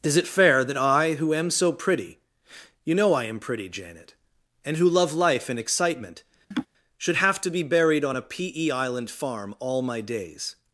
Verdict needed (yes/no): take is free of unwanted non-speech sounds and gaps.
no